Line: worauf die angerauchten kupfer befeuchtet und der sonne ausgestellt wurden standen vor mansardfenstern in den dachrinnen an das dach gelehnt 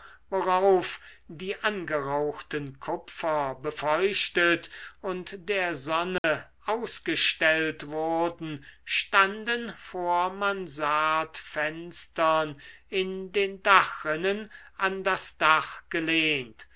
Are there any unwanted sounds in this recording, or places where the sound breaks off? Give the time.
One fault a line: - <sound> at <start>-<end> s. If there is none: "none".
- dropout at 6.2-6.2 s